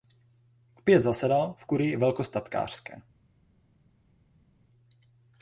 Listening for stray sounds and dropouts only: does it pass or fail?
pass